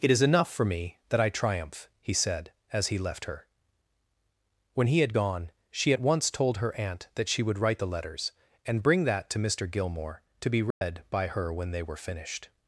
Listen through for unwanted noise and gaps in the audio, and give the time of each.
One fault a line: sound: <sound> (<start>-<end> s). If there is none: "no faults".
sound: dropout (10.7-10.8 s)